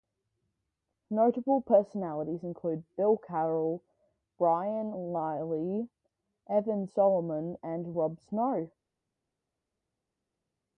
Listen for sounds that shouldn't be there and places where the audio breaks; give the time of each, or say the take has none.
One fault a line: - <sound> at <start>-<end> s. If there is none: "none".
none